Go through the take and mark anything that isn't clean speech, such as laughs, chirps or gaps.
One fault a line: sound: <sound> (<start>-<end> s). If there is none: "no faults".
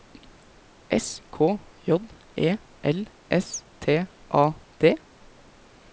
no faults